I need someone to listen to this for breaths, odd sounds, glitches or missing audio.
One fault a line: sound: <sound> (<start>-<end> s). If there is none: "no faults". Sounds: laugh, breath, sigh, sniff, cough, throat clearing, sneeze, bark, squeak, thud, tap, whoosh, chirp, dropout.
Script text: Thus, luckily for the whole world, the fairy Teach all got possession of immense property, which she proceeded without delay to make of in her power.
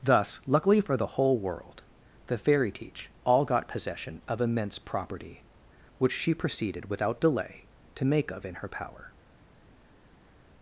no faults